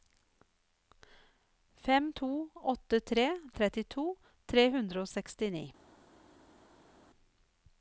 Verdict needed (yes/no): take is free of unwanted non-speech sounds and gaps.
yes